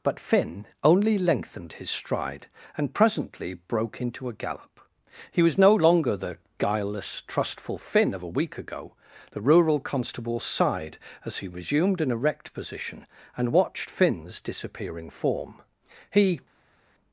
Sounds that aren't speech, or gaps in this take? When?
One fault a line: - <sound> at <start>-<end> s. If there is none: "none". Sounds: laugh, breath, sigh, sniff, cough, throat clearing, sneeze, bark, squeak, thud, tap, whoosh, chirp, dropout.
none